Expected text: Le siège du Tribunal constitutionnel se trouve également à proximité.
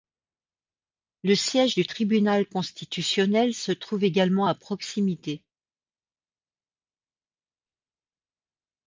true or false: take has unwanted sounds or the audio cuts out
false